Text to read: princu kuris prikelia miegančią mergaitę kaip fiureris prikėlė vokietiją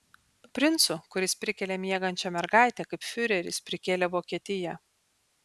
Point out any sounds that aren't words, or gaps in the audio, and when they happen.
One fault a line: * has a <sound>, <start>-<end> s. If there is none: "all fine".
all fine